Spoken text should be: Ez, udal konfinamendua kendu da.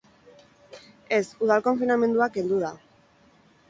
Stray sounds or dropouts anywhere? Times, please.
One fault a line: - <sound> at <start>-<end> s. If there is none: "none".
none